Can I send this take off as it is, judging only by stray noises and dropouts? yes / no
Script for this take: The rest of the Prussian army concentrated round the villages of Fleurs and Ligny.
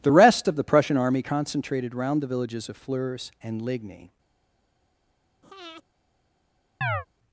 no